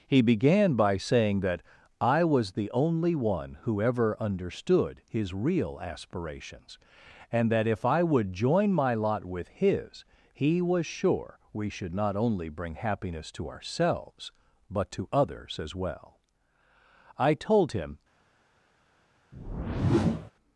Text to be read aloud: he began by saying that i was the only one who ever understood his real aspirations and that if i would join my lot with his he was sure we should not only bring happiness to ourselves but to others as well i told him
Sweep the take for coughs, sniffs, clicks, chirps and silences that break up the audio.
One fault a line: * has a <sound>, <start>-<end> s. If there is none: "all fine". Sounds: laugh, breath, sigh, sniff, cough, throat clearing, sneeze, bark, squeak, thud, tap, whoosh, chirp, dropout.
* has a whoosh, 19.3-20.3 s